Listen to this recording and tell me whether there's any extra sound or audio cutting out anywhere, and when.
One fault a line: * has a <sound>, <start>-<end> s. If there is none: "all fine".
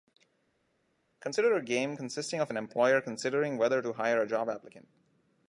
all fine